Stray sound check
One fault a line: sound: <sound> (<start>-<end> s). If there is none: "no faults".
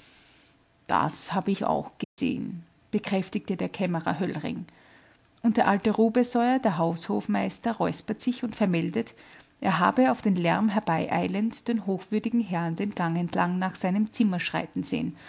sound: dropout (2.0-2.2 s)